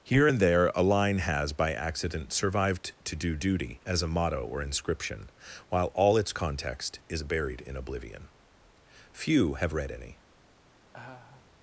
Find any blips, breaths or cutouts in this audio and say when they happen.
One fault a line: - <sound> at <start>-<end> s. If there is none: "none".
- laugh at 10.9-11.5 s